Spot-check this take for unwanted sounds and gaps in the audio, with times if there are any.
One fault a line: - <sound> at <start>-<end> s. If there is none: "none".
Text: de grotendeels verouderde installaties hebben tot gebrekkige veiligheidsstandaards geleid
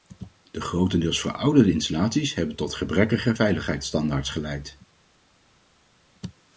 none